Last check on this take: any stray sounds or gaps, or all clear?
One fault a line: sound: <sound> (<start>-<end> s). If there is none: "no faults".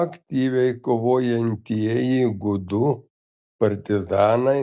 no faults